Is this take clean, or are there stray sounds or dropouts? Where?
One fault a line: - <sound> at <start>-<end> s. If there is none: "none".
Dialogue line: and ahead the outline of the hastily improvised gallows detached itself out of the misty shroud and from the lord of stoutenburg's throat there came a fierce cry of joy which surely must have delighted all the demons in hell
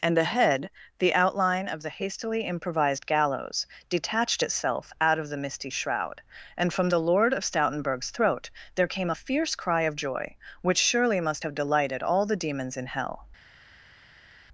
none